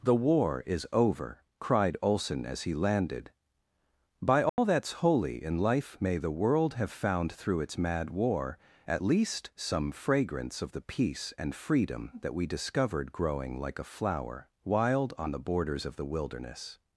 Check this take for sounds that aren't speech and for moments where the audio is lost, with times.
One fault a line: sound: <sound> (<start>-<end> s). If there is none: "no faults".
sound: dropout (4.5-4.6 s)